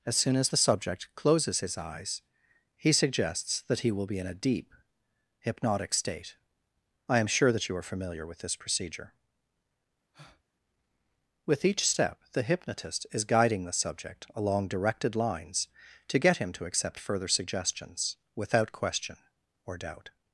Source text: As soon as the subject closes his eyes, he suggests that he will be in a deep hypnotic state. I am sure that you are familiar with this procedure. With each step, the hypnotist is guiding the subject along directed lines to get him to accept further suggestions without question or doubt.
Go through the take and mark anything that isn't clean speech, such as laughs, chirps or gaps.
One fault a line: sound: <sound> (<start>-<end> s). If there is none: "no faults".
sound: breath (10.1-10.4 s)